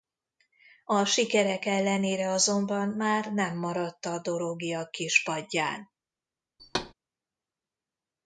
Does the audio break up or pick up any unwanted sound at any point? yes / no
yes